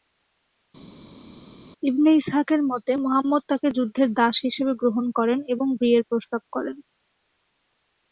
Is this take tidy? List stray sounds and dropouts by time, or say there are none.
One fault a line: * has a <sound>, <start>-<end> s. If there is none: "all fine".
all fine